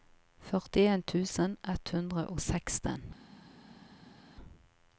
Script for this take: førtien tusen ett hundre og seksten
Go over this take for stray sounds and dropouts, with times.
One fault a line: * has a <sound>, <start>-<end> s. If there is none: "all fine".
all fine